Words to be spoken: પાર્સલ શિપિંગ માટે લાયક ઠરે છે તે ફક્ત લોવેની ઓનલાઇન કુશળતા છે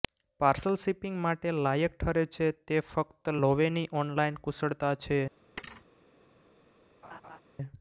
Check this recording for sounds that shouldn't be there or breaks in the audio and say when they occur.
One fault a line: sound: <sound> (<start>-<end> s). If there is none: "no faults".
sound: thud (5.6-5.9 s)
sound: laugh (7.0-7.4 s)